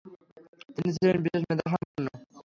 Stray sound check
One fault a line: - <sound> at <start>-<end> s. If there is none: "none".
- dropout at 1.8-1.9 s